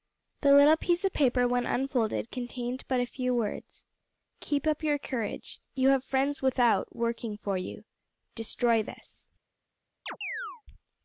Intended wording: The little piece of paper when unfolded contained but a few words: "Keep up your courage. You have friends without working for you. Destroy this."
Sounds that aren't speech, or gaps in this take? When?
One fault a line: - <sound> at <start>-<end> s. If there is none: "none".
- chirp at 10.1-10.6 s